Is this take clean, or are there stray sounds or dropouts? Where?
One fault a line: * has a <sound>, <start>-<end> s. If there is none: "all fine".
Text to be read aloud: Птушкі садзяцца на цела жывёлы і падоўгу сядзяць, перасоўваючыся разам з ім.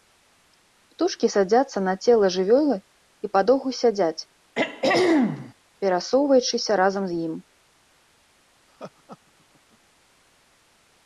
* has a throat clearing, 4.5-5.5 s
* has a laugh, 8.7-9.8 s